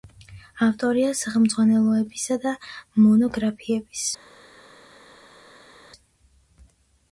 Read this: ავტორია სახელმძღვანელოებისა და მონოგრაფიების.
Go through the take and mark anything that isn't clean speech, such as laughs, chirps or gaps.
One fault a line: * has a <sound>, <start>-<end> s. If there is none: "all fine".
all fine